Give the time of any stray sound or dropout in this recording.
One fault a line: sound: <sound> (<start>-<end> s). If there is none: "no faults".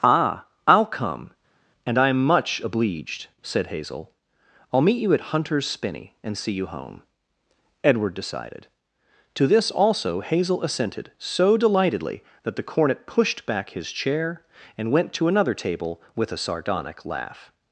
no faults